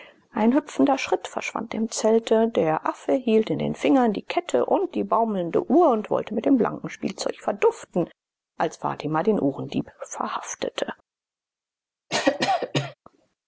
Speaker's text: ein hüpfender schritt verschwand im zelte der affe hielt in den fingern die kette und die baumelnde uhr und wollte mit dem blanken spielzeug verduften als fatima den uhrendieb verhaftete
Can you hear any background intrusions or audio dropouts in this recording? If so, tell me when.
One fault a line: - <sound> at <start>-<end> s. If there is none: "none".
- cough at 12.1-12.9 s